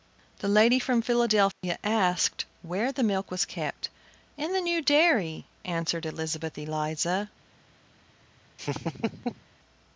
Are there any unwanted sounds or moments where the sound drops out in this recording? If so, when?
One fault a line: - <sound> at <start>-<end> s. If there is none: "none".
- dropout at 1.5-1.6 s
- laugh at 8.6-9.5 s